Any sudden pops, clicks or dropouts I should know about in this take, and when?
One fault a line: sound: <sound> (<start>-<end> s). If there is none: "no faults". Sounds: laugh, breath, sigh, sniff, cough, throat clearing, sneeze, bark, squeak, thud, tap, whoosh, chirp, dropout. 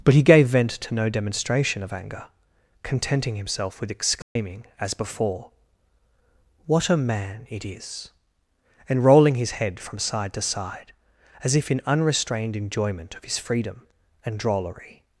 sound: dropout (4.2-4.4 s)